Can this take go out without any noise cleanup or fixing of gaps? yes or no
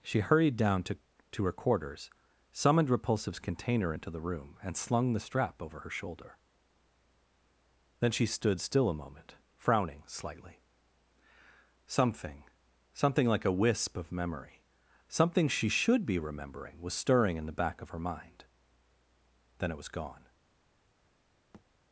no